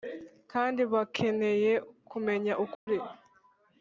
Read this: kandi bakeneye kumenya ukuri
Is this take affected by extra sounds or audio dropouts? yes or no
yes